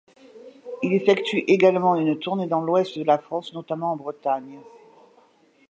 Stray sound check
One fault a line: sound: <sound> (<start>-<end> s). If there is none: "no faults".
no faults